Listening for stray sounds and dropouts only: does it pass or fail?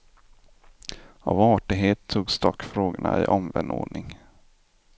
pass